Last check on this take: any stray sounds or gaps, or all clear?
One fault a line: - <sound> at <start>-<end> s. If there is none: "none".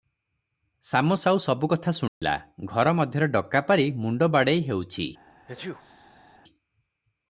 - dropout at 2.1-2.2 s
- sneeze at 5.5-6.4 s